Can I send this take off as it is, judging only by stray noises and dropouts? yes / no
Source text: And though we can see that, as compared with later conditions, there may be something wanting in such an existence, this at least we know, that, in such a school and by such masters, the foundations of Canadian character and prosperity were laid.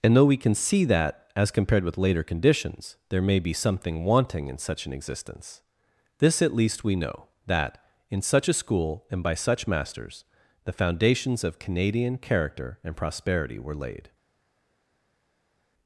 yes